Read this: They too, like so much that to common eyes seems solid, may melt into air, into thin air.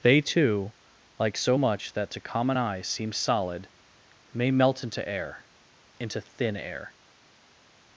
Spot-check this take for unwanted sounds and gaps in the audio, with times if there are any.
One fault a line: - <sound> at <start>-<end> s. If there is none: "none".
none